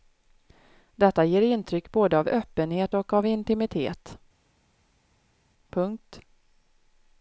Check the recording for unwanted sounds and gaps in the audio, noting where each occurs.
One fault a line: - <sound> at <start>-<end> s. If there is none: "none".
none